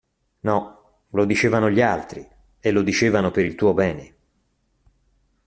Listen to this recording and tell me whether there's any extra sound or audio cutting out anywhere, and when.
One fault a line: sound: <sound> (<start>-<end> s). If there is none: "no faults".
no faults